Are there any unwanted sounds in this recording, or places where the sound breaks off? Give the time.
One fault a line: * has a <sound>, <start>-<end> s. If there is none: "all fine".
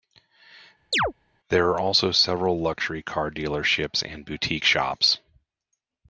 * has a chirp, 0.9-1.1 s